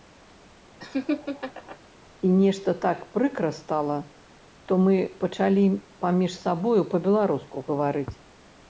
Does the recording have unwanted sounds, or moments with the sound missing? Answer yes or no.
yes